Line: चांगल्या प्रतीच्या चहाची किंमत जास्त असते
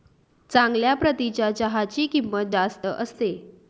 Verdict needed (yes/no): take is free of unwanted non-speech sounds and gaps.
yes